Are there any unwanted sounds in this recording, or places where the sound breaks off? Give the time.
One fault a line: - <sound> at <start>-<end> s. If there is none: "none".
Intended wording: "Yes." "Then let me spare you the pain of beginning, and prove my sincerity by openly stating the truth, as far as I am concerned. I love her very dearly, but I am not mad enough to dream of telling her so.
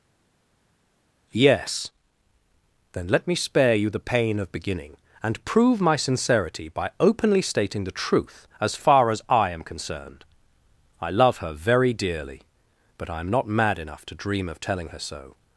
none